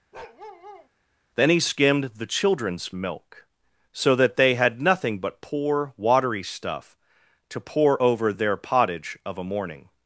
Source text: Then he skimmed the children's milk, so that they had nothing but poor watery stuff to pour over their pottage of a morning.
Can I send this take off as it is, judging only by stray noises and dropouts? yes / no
no